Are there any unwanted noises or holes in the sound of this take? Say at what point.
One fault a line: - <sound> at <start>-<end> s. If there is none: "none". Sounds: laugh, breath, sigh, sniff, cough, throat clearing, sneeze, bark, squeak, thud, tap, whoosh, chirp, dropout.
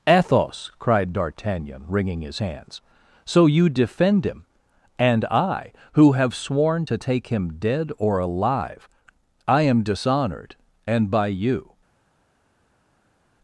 none